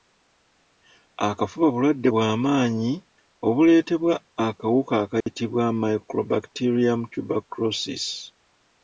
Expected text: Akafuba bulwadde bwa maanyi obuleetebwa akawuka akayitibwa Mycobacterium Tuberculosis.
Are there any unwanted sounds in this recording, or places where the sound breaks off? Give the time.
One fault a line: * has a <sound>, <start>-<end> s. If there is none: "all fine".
* has a dropout, 5.2-5.3 s